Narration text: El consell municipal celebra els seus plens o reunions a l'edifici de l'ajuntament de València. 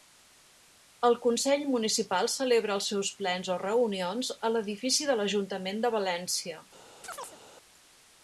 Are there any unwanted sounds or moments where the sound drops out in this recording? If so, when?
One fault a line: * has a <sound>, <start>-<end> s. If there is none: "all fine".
* has a chirp, 7.0-7.4 s